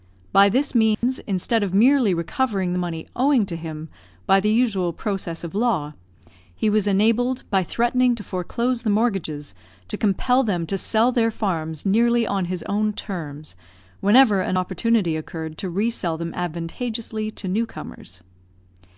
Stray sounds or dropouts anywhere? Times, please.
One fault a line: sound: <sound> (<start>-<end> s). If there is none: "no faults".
sound: dropout (0.9-1.0 s)